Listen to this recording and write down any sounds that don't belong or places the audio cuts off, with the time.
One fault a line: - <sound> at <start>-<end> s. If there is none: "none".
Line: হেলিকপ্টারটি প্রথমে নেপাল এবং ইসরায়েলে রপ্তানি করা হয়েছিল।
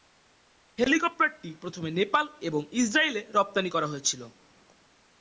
none